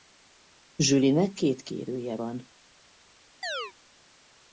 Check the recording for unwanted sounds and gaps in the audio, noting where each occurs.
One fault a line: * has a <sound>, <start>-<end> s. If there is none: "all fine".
* has a chirp, 3.4-3.7 s